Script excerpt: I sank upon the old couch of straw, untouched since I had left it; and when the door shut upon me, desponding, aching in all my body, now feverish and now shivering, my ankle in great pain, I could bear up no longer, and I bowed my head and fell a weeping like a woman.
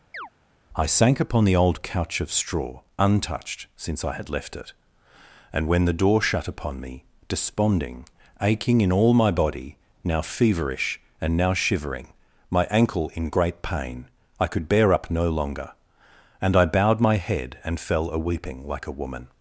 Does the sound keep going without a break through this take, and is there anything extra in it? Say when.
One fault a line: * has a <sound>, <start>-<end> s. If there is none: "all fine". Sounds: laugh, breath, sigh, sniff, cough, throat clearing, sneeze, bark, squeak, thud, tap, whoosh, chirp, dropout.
* has a chirp, 0.1-0.3 s